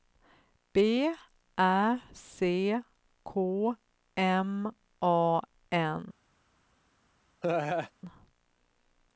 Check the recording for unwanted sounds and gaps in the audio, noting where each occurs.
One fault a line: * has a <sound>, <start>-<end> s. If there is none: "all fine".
* has a laugh, 7.4-7.9 s